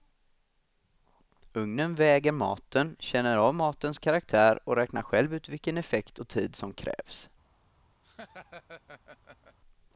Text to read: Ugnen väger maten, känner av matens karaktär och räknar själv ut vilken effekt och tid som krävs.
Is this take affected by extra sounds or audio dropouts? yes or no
yes